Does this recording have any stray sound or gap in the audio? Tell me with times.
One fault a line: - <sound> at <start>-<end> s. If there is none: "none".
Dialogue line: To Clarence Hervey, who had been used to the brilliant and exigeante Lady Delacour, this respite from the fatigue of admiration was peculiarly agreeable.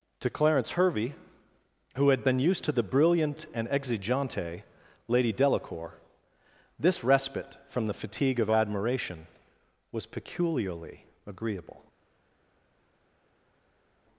none